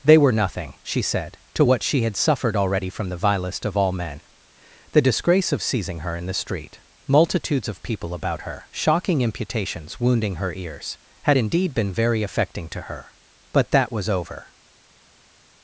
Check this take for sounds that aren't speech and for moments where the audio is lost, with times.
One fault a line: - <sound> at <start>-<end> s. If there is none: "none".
none